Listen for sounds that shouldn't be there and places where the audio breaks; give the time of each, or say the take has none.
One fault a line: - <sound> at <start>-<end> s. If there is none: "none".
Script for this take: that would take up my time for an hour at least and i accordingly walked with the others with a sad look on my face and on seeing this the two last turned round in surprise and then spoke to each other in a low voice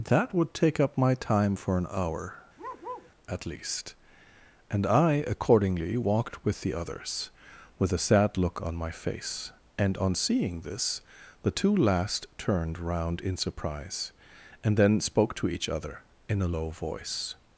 - bark at 2.6-3.1 s